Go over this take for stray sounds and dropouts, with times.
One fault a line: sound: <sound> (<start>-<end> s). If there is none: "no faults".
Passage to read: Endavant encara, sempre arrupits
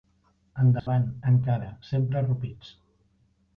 sound: dropout (0.8-0.9 s)